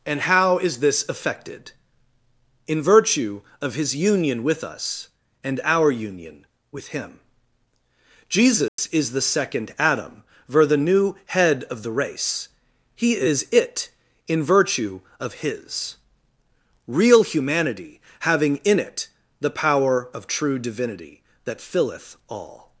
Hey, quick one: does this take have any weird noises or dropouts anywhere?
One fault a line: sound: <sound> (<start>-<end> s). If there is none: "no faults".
sound: dropout (8.7-8.8 s)